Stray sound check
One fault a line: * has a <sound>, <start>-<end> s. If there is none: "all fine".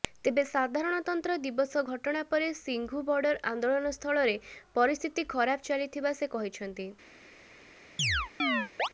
* has a chirp, 8.0-8.9 s